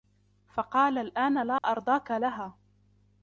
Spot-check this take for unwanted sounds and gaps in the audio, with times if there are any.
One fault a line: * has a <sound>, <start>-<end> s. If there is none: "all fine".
* has a dropout, 1.6-1.6 s